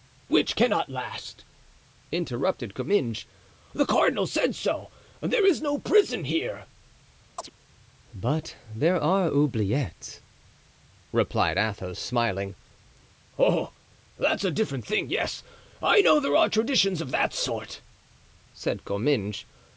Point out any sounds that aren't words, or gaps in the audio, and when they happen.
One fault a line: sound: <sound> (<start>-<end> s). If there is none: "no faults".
sound: chirp (7.4-7.5 s)